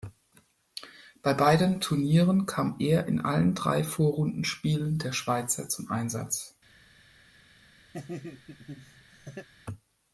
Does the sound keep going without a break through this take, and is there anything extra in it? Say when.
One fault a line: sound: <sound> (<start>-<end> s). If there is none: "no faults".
sound: laugh (7.9-9.5 s)